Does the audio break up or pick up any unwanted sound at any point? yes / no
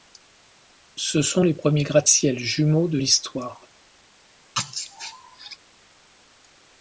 yes